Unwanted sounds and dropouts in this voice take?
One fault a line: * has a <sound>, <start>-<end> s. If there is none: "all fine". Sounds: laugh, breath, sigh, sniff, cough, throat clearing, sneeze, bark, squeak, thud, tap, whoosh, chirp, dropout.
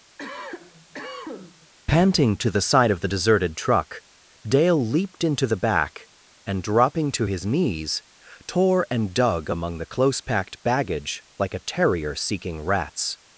* has a cough, 0.2-1.7 s